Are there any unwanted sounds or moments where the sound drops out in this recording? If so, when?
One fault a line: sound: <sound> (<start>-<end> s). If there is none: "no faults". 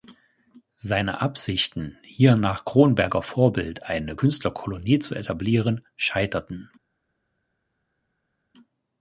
no faults